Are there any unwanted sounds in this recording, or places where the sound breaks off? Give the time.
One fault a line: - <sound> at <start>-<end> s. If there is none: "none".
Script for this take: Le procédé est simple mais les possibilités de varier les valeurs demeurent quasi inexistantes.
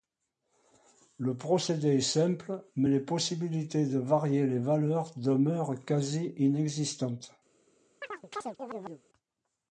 - chirp at 8.0-9.0 s